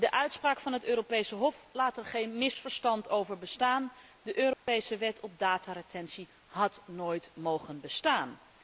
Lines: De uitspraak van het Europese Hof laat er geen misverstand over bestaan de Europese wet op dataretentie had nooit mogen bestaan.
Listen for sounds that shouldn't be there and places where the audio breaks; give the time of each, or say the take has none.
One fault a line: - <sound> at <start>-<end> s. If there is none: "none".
- dropout at 4.5-4.7 s